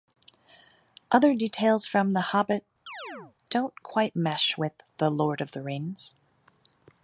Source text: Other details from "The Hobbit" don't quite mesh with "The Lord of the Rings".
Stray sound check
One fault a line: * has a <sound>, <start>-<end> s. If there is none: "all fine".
* has a chirp, 2.9-3.4 s